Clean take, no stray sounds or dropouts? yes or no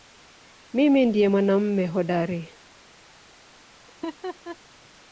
no